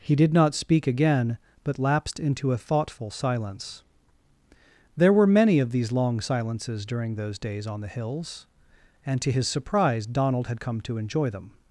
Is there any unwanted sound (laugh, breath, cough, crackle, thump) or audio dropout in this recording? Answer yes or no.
no